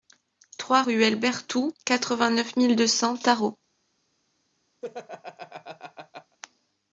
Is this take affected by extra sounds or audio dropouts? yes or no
yes